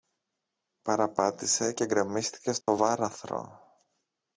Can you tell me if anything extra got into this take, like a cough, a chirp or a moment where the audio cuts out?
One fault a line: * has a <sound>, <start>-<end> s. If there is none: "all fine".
* has a dropout, 2.6-2.7 s